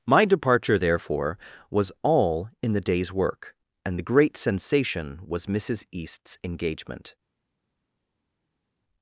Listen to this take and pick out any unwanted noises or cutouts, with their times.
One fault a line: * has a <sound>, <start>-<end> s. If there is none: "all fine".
all fine